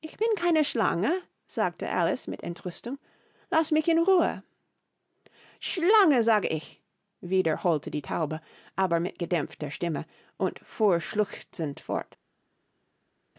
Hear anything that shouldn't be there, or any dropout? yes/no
no